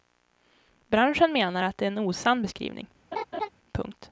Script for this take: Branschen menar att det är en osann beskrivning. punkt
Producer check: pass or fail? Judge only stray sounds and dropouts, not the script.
fail